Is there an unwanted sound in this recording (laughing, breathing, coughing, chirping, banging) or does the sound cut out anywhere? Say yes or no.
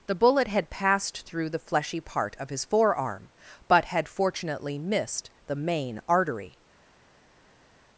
no